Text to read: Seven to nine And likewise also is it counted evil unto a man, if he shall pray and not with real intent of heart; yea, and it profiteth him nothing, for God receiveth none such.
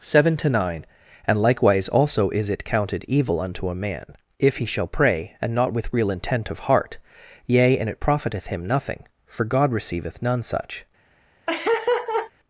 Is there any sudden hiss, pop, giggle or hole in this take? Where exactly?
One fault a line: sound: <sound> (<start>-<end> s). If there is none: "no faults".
sound: laugh (11.5-12.3 s)